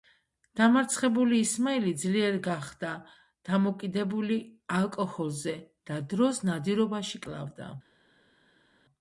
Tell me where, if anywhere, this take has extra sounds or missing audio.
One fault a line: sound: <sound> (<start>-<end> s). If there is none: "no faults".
no faults